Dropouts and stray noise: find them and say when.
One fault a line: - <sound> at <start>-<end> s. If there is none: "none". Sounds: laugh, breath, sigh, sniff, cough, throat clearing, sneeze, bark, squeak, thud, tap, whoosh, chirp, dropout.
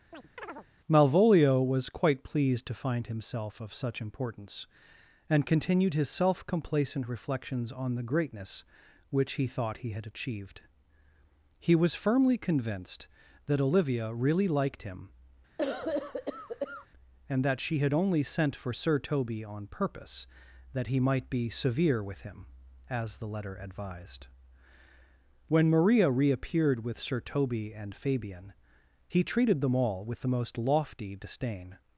- chirp at 0.1-0.7 s
- cough at 15.6-16.9 s